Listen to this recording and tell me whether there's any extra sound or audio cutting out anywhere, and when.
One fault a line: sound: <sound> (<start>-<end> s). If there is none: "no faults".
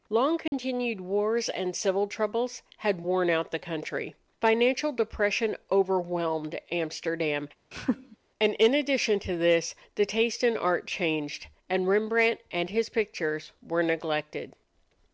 sound: dropout (0.5-0.5 s)
sound: laugh (7.7-8.2 s)